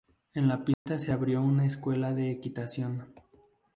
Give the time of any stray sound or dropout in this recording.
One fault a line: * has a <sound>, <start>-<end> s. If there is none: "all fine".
* has a dropout, 0.7-0.9 s